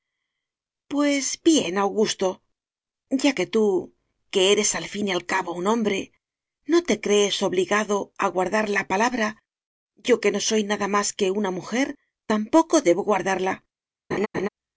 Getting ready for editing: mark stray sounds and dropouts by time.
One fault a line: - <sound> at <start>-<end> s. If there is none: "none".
- laugh at 14.1-14.5 s